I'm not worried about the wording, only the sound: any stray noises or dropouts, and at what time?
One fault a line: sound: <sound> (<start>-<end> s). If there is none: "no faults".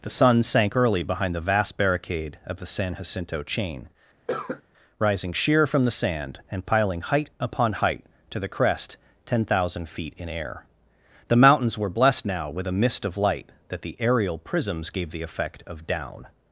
sound: cough (4.3-4.6 s)